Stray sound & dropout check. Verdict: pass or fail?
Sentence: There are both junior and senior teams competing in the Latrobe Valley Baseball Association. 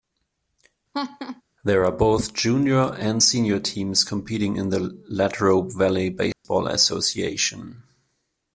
fail